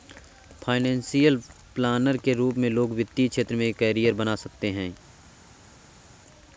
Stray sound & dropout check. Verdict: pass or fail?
pass